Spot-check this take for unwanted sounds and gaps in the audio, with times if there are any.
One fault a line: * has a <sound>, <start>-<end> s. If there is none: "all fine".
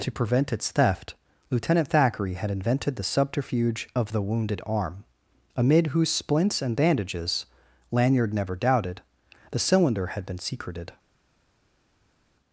all fine